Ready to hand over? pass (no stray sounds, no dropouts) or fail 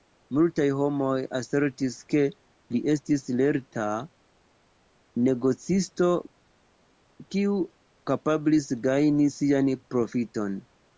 pass